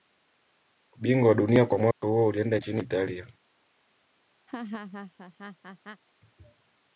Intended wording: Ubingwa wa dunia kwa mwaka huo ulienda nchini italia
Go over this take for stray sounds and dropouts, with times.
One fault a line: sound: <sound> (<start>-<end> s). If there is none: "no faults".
sound: dropout (1.9-2.0 s)
sound: laugh (4.5-6.0 s)